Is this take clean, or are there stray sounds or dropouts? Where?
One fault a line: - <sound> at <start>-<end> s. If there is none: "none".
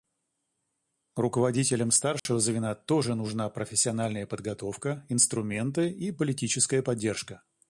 - dropout at 2.2-2.3 s